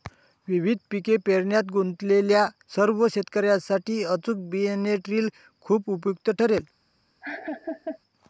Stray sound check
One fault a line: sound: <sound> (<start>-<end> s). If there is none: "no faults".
sound: laugh (7.2-8.0 s)